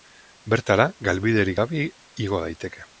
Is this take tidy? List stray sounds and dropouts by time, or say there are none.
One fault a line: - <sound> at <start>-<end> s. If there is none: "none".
none